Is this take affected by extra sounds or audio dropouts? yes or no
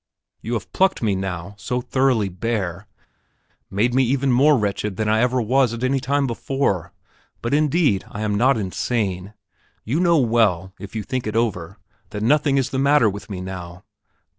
no